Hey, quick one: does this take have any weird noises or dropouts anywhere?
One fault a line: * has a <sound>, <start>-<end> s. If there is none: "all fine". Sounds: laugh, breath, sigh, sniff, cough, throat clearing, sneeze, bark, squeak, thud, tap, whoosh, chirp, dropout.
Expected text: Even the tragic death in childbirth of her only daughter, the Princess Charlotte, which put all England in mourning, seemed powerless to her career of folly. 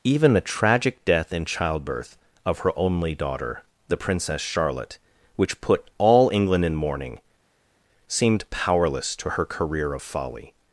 all fine